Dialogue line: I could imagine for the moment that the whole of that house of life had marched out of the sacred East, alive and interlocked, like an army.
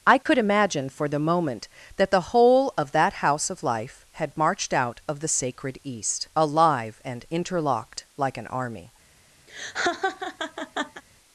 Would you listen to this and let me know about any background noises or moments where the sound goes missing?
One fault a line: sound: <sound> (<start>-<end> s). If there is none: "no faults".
sound: dropout (0.2-0.3 s)
sound: laugh (9.5-11.0 s)